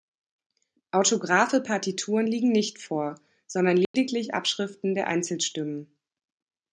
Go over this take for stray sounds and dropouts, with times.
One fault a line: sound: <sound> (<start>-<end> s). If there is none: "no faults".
sound: dropout (3.9-3.9 s)